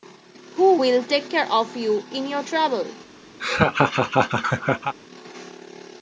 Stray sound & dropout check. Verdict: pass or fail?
fail